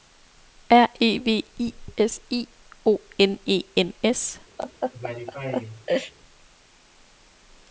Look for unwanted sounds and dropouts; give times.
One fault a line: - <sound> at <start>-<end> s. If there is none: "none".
- laugh at 4.6-6.1 s